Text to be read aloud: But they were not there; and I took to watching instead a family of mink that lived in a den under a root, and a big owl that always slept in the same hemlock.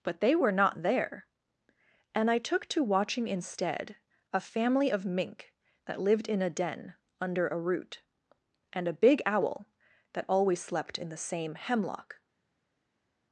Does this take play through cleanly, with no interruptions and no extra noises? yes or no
yes